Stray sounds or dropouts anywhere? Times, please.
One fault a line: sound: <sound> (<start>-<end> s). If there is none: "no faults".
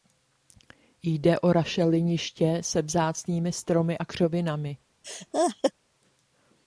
sound: laugh (5.0-5.7 s)